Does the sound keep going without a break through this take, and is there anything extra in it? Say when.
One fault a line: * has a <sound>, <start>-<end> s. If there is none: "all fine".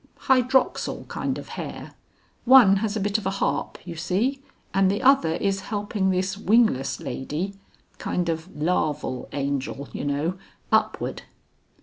all fine